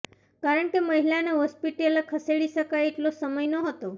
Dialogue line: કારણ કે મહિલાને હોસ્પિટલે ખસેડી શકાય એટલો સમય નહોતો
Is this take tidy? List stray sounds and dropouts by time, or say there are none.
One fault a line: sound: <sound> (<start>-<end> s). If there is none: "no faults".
no faults